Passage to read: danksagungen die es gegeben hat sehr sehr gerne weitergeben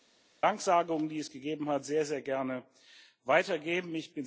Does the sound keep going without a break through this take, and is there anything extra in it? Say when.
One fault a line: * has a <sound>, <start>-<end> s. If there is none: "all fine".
all fine